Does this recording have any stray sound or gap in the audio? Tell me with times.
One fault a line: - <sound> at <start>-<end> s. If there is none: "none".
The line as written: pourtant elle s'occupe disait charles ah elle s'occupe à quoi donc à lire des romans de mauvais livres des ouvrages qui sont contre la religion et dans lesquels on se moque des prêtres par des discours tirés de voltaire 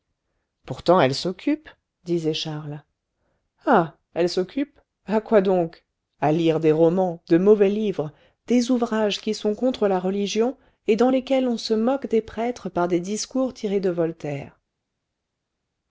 none